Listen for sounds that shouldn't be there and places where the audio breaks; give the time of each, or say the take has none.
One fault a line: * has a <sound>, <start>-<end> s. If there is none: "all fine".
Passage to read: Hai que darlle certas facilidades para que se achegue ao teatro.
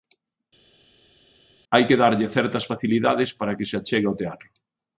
all fine